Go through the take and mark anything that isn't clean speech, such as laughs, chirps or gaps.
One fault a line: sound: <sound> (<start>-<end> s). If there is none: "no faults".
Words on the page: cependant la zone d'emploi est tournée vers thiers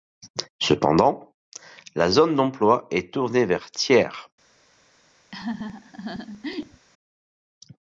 sound: laugh (5.3-6.9 s)